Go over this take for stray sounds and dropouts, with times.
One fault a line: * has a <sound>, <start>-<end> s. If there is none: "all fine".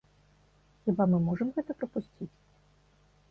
all fine